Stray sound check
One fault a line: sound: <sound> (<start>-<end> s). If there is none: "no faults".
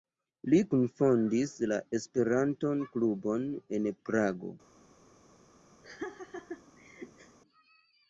sound: laugh (5.8-7.4 s)